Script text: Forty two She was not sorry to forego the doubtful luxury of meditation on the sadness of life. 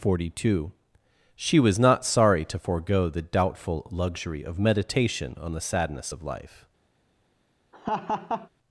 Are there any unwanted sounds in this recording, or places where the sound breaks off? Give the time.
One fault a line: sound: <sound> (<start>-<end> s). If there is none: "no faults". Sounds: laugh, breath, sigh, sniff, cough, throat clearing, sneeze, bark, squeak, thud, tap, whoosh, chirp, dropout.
sound: laugh (7.7-8.5 s)